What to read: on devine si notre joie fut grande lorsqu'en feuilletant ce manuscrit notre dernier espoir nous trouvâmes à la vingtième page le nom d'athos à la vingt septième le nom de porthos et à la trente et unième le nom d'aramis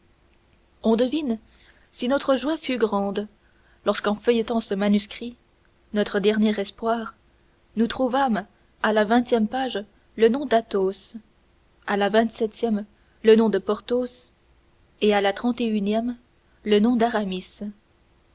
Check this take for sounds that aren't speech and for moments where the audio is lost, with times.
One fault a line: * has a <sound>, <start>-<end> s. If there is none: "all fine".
all fine